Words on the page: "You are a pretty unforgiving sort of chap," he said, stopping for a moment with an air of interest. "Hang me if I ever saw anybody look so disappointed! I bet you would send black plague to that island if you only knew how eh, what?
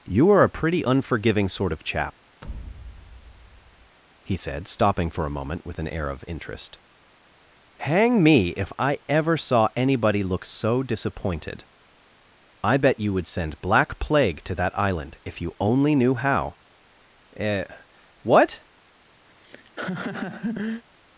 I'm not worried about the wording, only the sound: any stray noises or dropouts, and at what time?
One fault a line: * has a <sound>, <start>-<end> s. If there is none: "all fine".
* has a thud, 2.4-4.0 s
* has a laugh, 19.3-20.8 s